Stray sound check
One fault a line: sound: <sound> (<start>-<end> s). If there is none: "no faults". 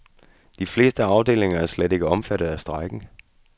no faults